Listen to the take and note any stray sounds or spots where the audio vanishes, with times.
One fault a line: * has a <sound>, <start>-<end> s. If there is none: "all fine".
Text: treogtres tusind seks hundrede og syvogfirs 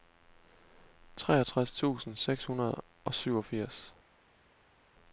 all fine